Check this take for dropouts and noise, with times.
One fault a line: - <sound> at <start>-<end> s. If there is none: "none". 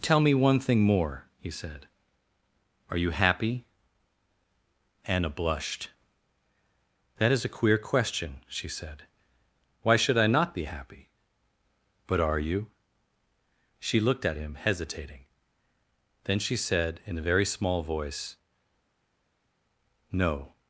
none